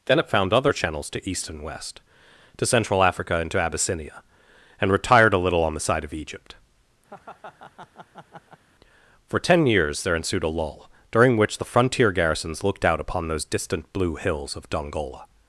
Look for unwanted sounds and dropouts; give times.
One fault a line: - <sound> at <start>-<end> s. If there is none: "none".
- laugh at 7.1-8.6 s